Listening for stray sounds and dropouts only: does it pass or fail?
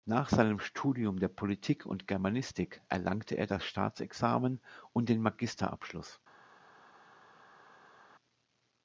pass